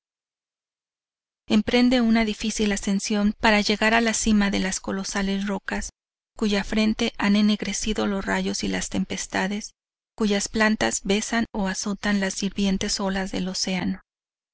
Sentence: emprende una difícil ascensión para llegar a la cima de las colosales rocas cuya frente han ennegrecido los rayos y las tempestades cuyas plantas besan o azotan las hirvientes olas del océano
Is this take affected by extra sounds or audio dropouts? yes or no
no